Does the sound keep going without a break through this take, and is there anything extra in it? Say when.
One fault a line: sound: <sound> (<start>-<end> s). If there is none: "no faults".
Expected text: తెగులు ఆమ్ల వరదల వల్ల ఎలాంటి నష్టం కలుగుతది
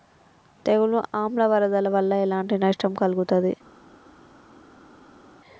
no faults